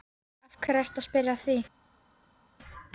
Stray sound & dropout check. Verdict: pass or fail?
pass